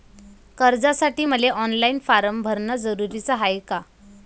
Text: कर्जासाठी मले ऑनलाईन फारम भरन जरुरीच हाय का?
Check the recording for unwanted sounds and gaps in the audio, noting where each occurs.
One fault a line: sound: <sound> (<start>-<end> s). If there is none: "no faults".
no faults